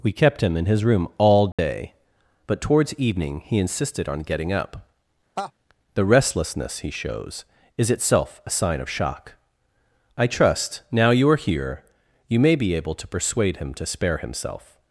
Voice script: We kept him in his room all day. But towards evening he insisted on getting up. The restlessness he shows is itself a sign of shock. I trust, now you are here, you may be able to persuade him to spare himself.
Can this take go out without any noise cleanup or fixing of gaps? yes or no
no